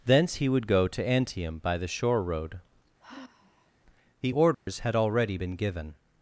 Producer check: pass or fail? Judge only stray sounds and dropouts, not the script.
fail